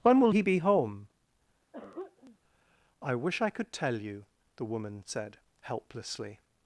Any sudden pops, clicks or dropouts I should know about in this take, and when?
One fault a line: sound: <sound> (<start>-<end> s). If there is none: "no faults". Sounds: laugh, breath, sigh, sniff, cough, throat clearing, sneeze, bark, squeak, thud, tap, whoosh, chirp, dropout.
sound: throat clearing (1.7-2.4 s)